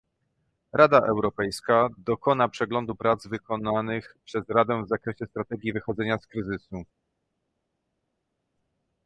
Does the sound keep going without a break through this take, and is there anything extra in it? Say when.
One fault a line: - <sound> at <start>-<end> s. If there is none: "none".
none